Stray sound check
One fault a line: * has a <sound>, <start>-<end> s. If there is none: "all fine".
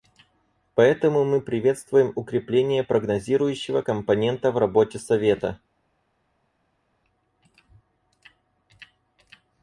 all fine